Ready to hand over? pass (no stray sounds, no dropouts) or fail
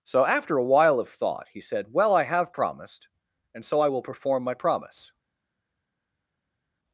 pass